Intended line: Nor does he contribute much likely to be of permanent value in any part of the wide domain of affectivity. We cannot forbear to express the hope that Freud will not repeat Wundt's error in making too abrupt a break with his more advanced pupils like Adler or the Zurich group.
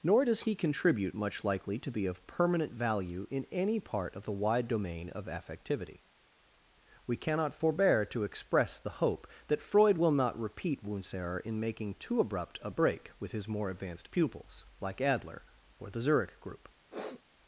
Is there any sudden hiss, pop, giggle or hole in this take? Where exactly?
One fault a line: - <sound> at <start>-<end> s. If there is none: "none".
- sniff at 16.9-17.2 s